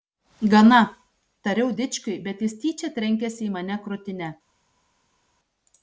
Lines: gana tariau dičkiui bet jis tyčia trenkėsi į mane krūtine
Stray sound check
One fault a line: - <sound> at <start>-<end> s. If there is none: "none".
none